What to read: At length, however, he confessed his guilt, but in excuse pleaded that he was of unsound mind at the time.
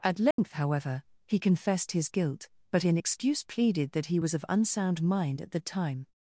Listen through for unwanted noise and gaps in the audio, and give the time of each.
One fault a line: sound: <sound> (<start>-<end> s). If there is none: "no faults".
sound: dropout (0.3-0.4 s)